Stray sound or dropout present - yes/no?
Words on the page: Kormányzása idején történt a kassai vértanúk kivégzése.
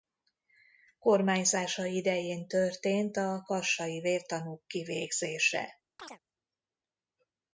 yes